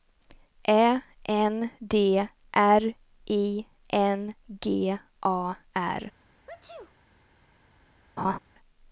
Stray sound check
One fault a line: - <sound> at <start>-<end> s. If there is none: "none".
- sneeze at 6.5-7.0 s
- laugh at 8.2-8.4 s